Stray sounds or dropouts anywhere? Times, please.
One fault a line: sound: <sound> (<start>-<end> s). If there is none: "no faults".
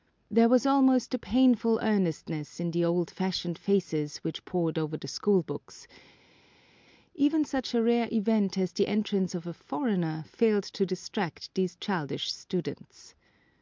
no faults